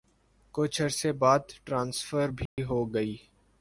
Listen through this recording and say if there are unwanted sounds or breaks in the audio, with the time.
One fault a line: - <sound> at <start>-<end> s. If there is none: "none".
- dropout at 2.5-2.6 s